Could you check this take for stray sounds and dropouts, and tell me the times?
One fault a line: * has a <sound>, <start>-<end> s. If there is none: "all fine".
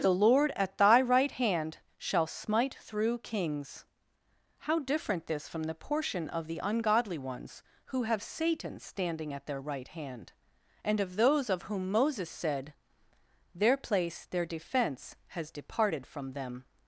all fine